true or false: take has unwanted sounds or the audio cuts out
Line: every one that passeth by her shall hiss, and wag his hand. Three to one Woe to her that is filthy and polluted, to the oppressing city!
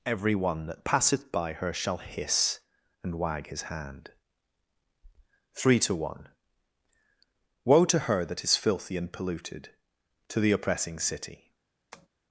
true